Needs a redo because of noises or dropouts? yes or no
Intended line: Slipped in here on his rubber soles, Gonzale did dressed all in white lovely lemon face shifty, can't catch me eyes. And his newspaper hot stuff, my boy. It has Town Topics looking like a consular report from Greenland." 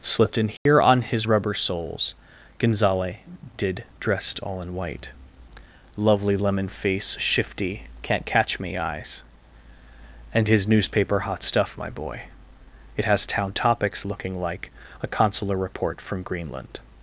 yes